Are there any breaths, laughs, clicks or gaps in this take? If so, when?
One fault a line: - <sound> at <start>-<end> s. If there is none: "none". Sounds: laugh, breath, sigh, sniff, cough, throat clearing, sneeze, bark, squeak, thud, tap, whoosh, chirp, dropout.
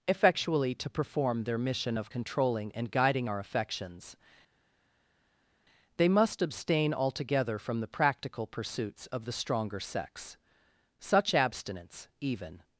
none